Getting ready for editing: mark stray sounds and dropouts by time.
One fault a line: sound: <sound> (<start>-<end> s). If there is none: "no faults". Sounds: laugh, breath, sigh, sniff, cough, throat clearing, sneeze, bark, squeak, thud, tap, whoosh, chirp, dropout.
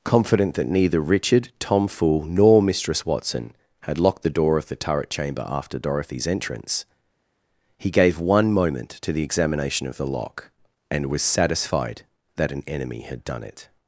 no faults